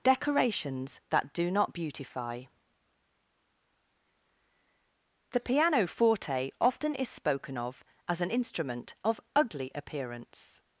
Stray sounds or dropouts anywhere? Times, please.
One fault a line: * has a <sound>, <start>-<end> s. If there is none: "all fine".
all fine